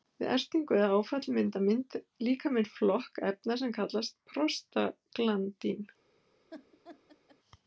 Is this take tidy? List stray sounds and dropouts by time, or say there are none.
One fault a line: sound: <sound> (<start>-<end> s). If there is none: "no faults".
sound: laugh (6.5-7.4 s)